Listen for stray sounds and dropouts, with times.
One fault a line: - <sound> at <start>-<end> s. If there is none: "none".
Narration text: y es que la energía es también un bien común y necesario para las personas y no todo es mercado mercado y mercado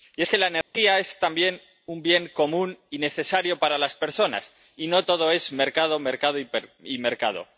- dropout at 0.6-0.7 s